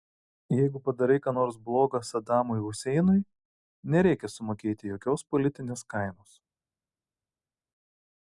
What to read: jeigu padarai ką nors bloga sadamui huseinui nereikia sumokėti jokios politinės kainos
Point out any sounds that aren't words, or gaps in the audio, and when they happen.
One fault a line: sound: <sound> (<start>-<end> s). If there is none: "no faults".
no faults